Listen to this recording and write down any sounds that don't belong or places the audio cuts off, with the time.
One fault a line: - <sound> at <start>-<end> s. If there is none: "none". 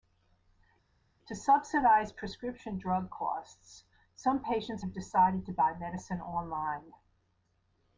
none